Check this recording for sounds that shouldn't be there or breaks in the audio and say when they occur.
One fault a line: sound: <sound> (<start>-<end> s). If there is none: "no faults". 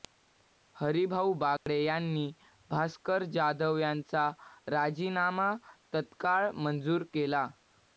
sound: dropout (1.6-1.7 s)